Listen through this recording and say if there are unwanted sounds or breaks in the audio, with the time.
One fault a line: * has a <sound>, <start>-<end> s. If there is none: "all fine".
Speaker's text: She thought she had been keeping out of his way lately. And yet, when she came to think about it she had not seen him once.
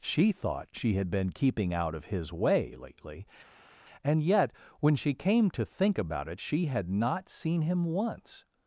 all fine